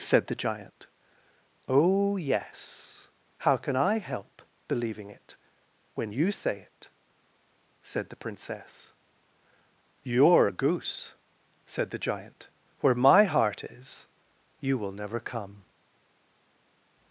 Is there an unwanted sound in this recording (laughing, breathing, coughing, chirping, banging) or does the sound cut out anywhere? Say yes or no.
no